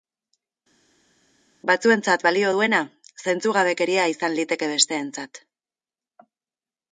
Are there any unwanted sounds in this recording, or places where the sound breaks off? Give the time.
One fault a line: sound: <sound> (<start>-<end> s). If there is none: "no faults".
no faults